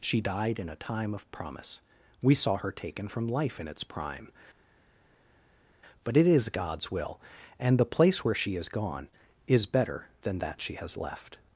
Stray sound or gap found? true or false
false